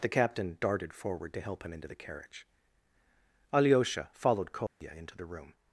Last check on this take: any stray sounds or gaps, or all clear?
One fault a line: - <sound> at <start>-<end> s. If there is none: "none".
- dropout at 4.7-4.8 s